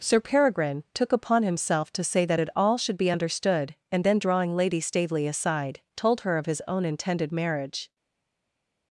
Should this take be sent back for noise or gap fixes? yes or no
no